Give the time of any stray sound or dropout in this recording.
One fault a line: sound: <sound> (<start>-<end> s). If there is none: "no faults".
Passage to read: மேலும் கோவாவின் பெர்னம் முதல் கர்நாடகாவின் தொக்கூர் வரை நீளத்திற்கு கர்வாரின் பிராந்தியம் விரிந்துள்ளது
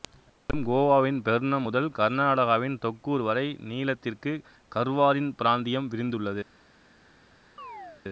sound: chirp (7.6-8.0 s)